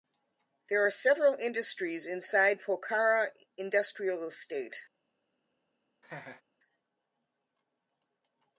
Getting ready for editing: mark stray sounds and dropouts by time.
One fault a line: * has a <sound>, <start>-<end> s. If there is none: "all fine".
* has a laugh, 6.0-6.4 s